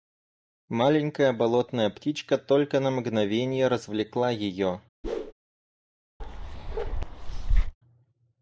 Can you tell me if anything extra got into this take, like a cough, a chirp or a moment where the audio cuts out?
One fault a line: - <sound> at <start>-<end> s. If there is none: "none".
- whoosh at 5.0-5.3 s
- bark at 6.2-7.7 s